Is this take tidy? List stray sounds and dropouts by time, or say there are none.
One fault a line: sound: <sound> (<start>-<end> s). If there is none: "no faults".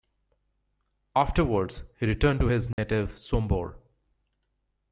sound: dropout (2.7-2.8 s)